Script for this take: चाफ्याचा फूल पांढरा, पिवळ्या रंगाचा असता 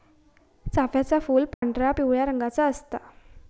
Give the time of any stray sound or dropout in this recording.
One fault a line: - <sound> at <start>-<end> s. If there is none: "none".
- dropout at 1.5-1.6 s